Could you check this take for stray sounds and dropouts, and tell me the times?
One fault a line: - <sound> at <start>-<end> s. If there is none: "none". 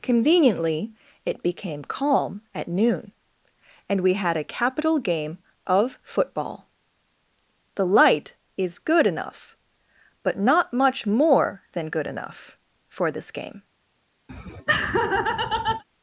- laugh at 14.3-15.8 s